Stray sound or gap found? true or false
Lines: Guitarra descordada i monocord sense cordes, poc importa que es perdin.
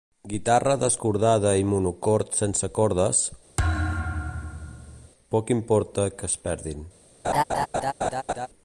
true